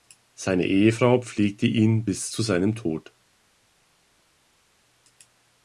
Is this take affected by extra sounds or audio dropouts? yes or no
no